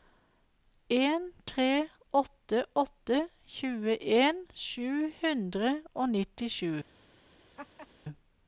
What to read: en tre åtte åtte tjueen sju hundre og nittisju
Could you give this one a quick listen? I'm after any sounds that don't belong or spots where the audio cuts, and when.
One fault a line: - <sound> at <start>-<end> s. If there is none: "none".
- laugh at 7.6-7.9 s